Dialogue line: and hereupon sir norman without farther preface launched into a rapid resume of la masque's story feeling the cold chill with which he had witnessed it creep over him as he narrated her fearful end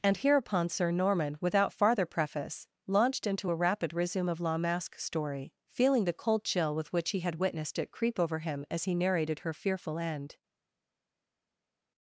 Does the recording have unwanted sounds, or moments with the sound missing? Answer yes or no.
no